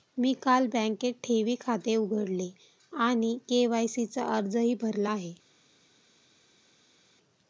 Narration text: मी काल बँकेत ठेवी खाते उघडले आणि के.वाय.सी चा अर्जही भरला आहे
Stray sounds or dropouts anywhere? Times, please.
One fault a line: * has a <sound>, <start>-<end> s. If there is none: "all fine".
all fine